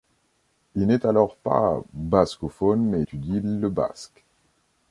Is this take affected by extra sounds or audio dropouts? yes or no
no